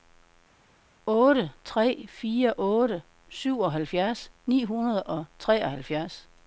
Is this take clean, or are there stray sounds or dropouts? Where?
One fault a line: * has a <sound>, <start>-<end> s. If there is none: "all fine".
all fine